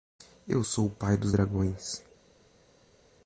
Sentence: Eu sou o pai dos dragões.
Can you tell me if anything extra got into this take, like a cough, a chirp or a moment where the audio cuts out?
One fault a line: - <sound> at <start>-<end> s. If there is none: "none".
none